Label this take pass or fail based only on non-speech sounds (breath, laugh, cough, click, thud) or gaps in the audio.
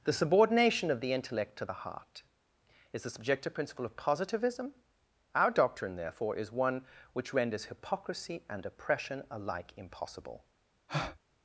fail